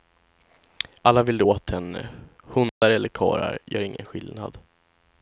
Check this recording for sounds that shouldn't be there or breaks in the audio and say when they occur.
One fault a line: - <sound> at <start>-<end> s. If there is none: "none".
- dropout at 2.7-2.8 s